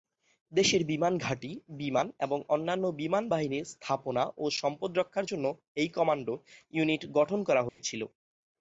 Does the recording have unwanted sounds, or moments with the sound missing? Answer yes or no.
yes